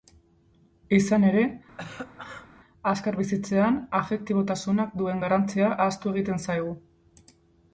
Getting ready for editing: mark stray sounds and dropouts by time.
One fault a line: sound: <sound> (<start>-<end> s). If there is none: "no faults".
sound: cough (1.8-2.5 s)